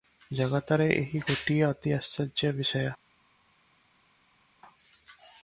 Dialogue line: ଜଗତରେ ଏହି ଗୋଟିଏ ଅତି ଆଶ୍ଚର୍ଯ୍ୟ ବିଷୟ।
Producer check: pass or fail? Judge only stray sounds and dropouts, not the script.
pass